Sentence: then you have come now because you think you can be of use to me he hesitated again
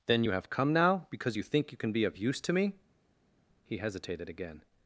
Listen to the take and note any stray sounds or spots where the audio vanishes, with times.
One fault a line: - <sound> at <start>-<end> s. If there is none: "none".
none